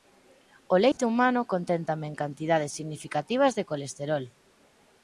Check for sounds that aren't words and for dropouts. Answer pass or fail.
fail